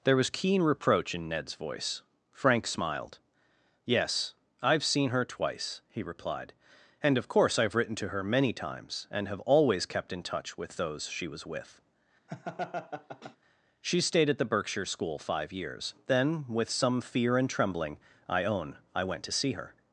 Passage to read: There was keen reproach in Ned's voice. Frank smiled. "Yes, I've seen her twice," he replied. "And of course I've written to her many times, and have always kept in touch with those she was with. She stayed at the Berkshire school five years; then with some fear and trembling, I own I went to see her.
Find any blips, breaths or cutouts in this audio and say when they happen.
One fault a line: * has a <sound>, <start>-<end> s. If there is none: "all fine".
* has a laugh, 12.3-13.4 s